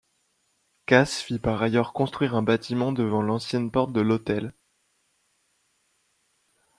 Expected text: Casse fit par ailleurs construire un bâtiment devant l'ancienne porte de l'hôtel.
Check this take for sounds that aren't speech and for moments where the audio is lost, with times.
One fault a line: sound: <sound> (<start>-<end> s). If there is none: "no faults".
no faults